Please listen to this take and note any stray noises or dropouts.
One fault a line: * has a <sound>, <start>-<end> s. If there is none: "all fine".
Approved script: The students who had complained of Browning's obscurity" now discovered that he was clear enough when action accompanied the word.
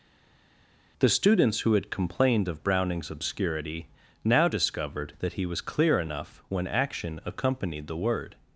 all fine